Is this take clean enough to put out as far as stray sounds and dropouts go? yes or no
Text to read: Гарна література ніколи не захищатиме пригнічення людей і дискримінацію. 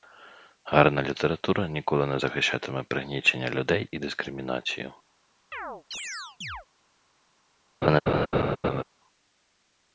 no